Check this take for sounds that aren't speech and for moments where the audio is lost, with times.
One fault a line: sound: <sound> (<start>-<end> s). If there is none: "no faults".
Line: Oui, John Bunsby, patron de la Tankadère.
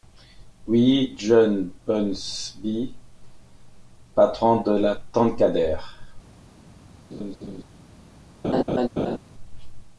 sound: laugh (7.1-7.6 s)
sound: laugh (8.4-9.2 s)